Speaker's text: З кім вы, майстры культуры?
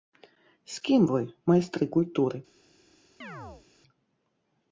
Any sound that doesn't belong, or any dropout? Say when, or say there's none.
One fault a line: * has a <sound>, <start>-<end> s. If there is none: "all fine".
* has a chirp, 3.2-3.7 s